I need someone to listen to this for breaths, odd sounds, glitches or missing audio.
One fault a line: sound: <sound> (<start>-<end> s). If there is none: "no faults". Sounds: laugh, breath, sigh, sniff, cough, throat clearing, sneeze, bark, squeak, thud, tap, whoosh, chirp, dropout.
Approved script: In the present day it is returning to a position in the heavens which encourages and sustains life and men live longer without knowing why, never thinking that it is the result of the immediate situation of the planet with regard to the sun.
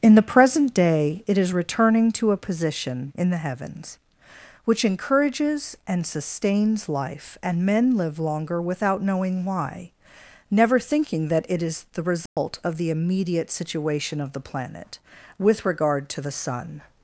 sound: dropout (12.3-12.4 s)